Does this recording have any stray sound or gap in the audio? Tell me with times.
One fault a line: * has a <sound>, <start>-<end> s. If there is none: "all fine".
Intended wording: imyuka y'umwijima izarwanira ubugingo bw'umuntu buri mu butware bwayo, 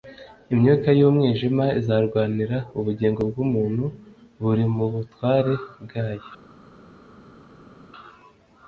all fine